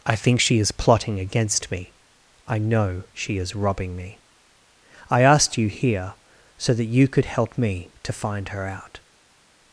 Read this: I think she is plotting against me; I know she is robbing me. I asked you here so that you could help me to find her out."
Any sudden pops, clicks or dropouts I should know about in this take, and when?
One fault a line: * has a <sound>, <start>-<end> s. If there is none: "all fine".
all fine